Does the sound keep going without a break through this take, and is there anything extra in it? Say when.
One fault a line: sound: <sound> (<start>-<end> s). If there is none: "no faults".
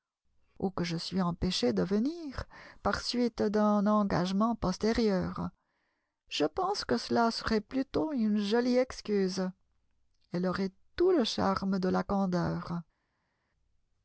no faults